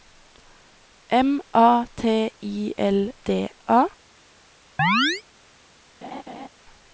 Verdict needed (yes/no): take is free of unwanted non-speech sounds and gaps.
no